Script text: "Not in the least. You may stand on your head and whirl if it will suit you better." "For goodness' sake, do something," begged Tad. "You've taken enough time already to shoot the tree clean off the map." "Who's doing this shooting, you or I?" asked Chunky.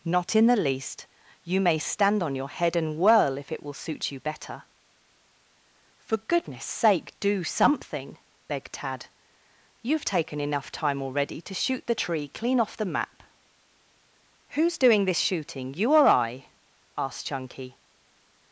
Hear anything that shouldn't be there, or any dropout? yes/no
no